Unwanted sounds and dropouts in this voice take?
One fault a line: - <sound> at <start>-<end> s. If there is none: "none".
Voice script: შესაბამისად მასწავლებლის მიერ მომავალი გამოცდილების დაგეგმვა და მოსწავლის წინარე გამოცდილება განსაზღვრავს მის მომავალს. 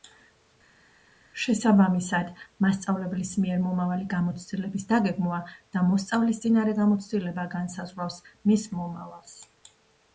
none